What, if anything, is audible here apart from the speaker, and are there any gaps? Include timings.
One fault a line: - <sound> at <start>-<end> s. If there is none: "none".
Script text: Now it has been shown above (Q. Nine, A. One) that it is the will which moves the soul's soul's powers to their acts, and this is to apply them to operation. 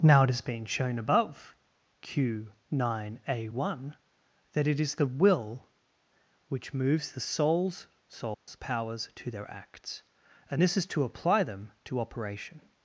- dropout at 8.3-8.5 s